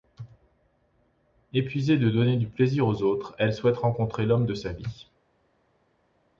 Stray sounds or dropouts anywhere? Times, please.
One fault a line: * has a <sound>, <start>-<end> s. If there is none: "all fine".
all fine